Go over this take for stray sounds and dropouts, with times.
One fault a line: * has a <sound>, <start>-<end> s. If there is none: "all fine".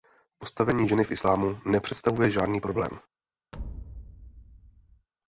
* has a thud, 3.5-5.1 s